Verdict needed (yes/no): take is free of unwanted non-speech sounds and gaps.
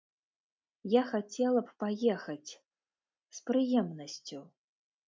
yes